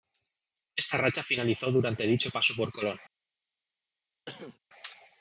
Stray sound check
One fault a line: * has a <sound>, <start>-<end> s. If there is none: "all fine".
* has a cough, 4.3-4.6 s